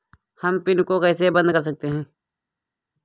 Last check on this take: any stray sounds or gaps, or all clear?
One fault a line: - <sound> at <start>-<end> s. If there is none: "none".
none